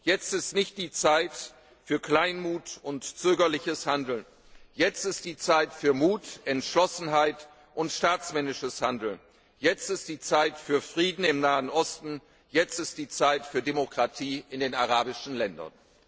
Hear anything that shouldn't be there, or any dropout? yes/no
no